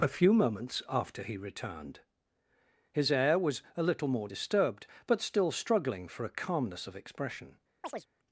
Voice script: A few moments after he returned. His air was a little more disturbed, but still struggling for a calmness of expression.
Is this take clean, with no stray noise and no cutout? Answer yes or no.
no